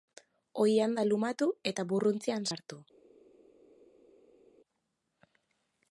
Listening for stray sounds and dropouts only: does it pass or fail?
pass